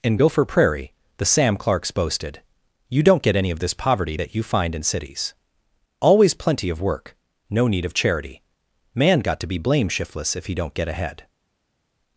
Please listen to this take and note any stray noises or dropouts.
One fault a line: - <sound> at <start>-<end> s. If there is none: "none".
none